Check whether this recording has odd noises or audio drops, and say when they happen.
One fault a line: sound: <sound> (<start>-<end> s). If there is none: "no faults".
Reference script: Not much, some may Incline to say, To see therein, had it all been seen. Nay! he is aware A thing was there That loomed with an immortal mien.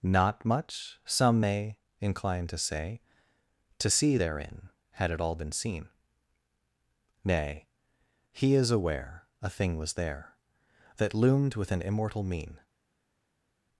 no faults